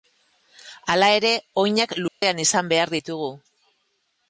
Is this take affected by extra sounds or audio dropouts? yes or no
yes